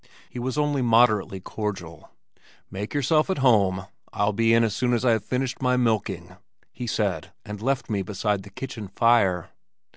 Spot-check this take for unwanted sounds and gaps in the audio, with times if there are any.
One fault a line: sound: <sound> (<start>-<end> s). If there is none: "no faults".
no faults